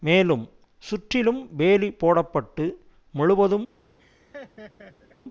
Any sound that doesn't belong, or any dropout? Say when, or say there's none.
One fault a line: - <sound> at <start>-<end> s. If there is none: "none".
- laugh at 4.0-5.2 s